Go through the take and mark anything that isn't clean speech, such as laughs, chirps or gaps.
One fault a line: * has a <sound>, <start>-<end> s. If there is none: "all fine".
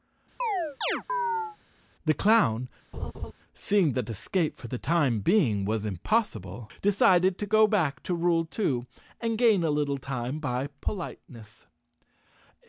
* has a chirp, 0.4-1.6 s
* has a laugh, 2.9-3.3 s